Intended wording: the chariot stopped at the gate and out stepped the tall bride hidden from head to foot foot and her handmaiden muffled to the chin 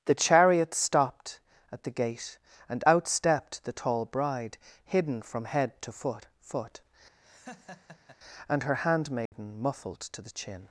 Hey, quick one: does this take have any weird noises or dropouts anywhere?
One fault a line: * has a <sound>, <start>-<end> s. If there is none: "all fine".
* has a laugh, 7.2-8.2 s
* has a dropout, 9.3-9.3 s